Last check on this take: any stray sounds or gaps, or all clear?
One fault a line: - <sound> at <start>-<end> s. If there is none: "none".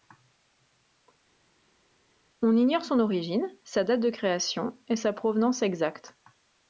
none